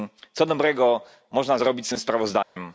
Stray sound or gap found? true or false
true